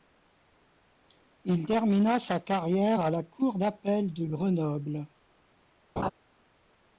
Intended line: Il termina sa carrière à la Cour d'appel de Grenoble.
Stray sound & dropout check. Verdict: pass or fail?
fail